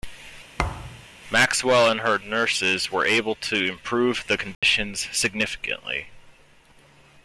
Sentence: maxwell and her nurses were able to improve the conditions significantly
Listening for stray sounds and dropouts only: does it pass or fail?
fail